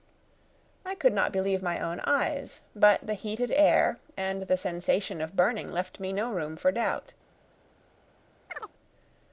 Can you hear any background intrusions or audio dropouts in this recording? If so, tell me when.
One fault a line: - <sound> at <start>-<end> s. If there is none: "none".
- chirp at 8.5-8.7 s